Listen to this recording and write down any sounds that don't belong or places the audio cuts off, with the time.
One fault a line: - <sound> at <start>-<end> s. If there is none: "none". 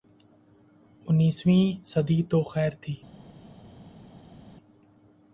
none